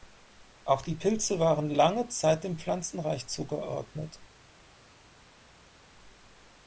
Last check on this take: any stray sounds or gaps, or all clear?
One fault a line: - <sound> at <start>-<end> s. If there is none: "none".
none